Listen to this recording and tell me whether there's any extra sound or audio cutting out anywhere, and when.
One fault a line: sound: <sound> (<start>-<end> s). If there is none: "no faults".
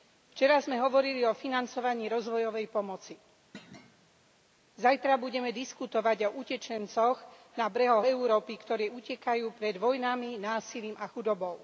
sound: thud (3.5-4.2 s)